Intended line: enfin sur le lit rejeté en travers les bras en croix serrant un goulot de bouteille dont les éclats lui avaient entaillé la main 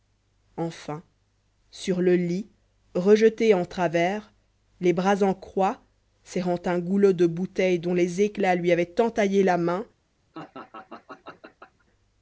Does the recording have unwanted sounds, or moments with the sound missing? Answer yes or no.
yes